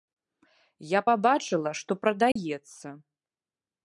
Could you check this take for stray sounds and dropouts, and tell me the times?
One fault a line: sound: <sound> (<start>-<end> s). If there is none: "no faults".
sound: dropout (2.3-2.4 s)